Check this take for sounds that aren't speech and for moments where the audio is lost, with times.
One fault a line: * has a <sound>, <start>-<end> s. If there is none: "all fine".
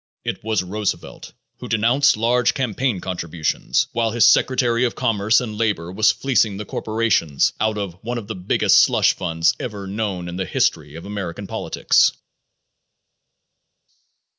all fine